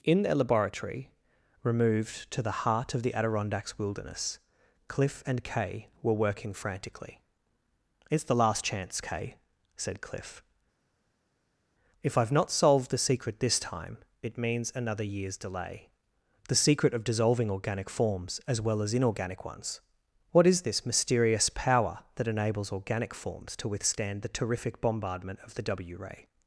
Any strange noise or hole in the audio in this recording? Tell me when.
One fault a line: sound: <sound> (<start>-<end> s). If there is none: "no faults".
no faults